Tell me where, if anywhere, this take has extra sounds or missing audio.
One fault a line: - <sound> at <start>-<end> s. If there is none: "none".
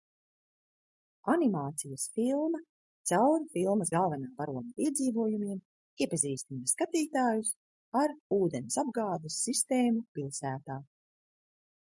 none